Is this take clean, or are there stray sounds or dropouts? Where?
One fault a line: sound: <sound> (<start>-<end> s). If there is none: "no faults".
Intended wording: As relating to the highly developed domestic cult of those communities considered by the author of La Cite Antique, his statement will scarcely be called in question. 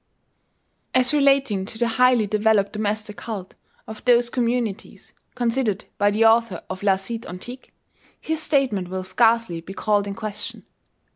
no faults